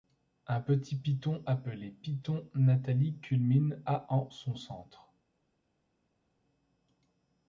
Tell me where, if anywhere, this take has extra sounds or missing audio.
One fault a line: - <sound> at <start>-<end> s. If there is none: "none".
none